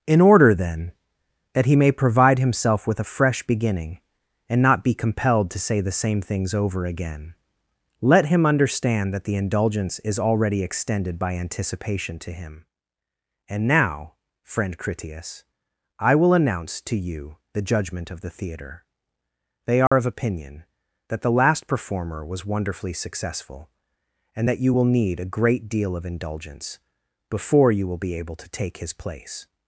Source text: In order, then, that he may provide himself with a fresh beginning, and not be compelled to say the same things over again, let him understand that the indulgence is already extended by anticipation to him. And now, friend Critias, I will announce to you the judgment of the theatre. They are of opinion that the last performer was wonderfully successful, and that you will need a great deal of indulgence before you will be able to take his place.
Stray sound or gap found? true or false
true